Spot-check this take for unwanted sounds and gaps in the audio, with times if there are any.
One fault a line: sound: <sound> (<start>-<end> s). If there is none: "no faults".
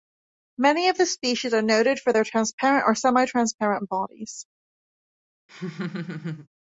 sound: laugh (5.5-6.5 s)